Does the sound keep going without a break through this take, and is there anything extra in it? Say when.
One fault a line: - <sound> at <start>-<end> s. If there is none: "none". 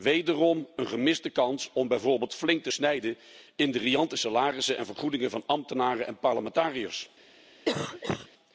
- cough at 7.7-8.3 s